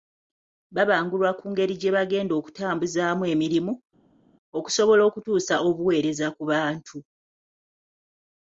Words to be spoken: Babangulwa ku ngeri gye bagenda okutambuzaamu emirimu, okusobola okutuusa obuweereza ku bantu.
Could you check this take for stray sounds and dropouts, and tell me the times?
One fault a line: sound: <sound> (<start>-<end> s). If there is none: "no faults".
no faults